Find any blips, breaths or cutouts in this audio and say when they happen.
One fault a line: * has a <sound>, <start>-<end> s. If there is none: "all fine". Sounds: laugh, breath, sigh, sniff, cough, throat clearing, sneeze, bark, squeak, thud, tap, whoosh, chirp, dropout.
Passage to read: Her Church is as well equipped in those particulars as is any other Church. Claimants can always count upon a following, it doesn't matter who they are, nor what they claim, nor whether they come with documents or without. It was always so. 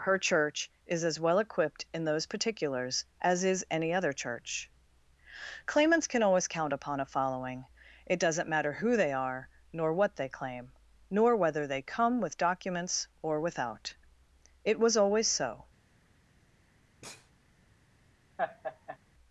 * has a sneeze, 17.0-17.3 s
* has a laugh, 18.4-19.0 s